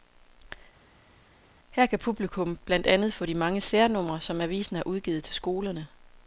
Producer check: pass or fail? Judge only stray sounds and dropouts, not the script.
pass